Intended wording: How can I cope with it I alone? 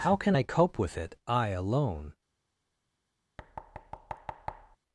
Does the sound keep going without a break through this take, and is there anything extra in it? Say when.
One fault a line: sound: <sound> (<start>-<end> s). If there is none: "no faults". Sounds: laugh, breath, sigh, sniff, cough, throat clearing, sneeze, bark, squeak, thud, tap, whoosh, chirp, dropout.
sound: thud (3.4-4.8 s)